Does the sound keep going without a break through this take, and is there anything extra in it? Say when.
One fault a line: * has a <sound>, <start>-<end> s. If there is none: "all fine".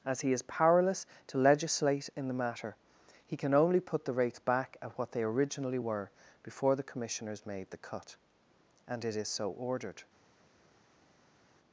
all fine